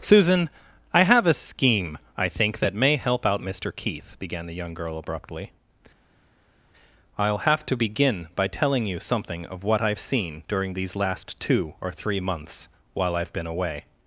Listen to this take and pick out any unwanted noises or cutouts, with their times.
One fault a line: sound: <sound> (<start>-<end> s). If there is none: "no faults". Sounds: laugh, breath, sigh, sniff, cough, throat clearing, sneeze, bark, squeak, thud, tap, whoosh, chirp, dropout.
no faults